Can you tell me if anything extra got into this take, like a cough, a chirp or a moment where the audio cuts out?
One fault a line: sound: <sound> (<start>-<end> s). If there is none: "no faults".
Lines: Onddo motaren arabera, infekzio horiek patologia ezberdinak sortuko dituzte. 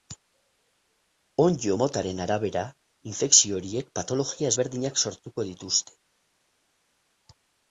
no faults